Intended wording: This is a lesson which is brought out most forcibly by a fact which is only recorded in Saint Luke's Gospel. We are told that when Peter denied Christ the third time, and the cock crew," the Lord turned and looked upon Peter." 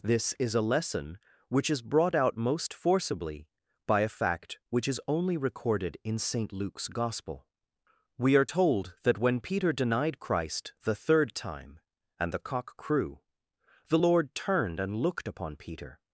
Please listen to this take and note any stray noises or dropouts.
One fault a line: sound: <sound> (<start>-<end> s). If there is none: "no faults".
no faults